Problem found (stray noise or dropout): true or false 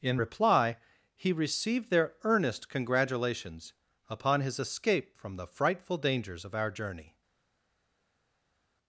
false